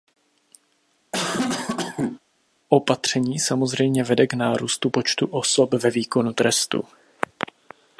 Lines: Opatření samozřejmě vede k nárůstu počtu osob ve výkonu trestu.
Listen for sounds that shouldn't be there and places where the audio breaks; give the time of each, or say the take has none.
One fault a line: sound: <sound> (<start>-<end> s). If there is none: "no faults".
sound: cough (1.1-2.2 s)